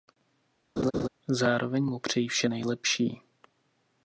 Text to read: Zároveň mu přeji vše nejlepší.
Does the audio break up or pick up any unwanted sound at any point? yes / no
yes